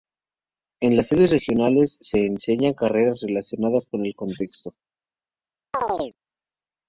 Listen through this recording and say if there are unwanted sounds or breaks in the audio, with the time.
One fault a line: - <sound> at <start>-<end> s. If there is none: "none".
- chirp at 5.7-6.2 s